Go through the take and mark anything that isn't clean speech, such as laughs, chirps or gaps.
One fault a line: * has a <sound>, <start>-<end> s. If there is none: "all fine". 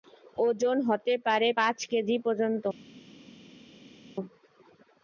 all fine